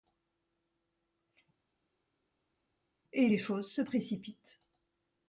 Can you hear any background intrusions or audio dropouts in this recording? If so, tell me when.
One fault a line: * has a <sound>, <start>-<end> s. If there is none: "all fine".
all fine